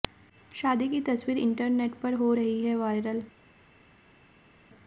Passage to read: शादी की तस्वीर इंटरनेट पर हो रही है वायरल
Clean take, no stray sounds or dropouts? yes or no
yes